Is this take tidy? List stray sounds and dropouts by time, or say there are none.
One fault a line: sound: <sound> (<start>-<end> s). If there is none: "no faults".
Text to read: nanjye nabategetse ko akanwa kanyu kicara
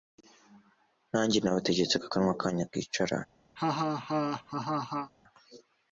sound: laugh (3.6-5.1 s)